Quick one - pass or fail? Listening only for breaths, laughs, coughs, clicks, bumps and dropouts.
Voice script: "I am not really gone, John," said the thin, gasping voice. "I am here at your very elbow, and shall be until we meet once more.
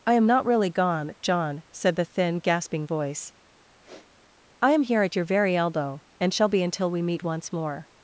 fail